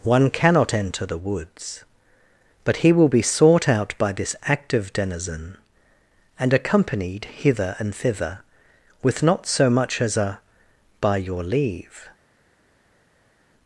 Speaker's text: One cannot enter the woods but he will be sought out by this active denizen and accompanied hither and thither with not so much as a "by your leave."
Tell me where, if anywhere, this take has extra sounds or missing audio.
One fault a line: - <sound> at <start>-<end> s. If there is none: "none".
none